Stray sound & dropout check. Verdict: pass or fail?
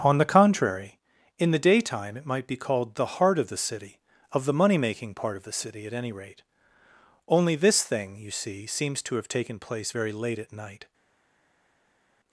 pass